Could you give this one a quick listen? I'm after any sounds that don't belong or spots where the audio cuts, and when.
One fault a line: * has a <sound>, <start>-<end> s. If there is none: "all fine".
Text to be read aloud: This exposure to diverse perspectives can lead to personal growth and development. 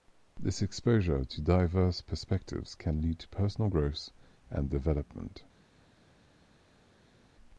all fine